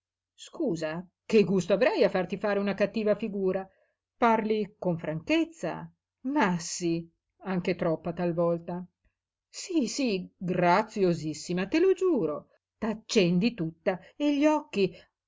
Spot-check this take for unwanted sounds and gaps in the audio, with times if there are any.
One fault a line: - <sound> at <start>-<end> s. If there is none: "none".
none